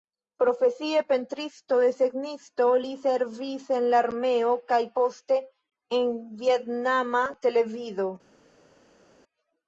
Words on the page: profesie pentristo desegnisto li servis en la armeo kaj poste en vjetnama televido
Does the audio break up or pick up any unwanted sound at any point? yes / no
no